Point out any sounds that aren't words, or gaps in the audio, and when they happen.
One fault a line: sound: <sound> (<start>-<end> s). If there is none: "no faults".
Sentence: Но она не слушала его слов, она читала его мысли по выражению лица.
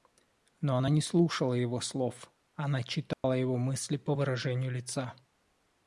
sound: dropout (3.1-3.2 s)